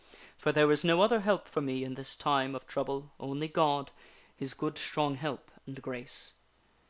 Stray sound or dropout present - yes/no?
no